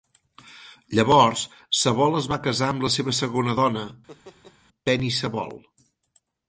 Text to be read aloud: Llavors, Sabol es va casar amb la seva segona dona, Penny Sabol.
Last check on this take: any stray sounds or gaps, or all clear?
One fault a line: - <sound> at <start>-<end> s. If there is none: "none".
- laugh at 4.1-4.6 s